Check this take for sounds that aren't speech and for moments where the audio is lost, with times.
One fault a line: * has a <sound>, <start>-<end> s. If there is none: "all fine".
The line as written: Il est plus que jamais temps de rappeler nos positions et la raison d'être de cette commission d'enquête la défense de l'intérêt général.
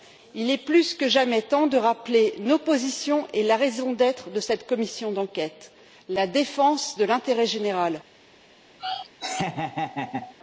* has a laugh, 8.8-10.3 s